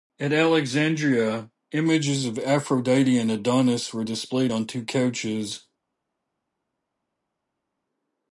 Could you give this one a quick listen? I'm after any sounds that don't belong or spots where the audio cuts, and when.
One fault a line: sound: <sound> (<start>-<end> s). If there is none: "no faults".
no faults